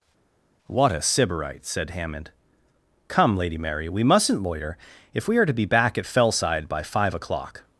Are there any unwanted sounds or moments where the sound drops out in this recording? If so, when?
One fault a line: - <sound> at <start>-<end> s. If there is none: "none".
none